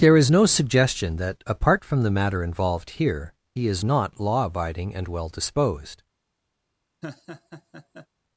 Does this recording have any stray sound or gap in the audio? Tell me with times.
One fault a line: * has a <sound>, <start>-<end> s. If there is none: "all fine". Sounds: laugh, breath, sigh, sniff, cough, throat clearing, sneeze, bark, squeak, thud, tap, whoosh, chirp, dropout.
* has a laugh, 7.0-8.1 s